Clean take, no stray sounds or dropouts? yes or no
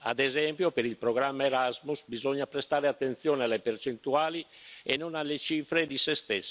yes